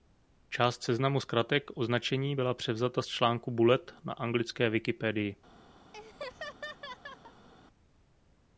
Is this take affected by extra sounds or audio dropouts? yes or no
yes